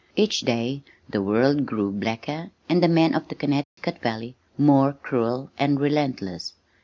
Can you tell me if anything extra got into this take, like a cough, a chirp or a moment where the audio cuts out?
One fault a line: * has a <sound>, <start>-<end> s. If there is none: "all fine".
* has a dropout, 3.6-3.8 s